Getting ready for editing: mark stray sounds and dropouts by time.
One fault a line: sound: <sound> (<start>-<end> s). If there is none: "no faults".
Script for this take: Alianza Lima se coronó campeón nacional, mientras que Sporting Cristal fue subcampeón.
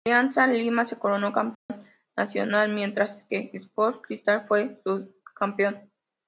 sound: dropout (1.5-1.7 s)